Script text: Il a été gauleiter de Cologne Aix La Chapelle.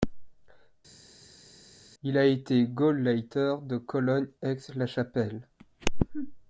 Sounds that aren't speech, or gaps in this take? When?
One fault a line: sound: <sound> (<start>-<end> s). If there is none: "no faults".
no faults